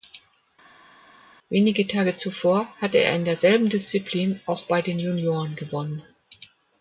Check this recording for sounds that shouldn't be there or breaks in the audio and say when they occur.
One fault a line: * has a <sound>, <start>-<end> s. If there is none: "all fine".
all fine